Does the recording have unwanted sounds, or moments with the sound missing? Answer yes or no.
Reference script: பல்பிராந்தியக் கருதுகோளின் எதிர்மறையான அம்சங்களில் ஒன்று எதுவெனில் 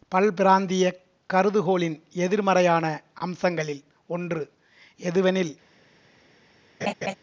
yes